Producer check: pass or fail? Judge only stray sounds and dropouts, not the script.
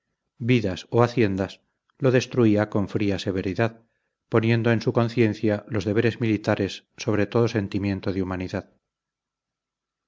pass